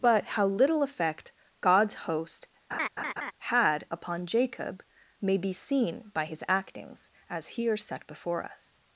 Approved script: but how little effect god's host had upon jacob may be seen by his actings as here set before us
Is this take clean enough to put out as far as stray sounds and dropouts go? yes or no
no